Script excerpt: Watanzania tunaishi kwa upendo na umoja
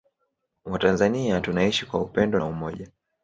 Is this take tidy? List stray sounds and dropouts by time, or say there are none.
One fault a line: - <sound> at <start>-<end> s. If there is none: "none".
none